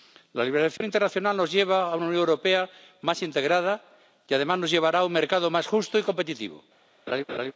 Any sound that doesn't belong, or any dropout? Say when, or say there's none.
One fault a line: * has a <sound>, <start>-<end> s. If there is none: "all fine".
* has a dropout, 0.8-0.8 s
* has a laugh, 7.1-7.5 s